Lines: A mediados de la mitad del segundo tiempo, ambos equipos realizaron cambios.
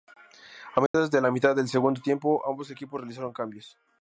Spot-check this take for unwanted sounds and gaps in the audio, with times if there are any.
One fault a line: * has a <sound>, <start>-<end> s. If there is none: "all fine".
* has a dropout, 0.9-0.9 s